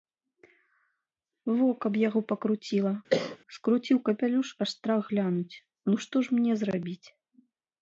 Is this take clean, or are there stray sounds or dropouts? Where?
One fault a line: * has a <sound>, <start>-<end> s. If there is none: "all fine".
* has a cough, 3.1-3.4 s